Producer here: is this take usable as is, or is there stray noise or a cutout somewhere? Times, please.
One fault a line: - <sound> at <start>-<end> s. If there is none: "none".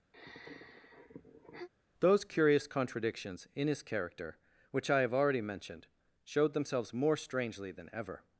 - sigh at 0.1-1.7 s